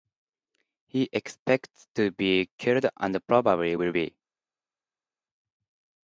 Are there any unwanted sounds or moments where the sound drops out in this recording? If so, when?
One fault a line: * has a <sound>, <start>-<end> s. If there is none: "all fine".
all fine